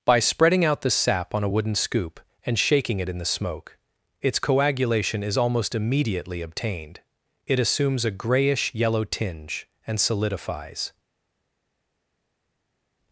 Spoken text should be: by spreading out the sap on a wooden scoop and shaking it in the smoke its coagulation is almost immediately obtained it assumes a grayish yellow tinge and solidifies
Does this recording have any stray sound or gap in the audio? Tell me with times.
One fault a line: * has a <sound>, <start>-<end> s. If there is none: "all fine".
all fine